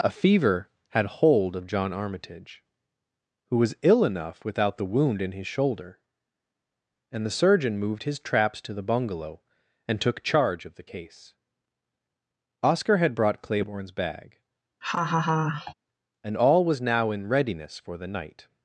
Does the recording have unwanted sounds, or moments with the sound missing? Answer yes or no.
yes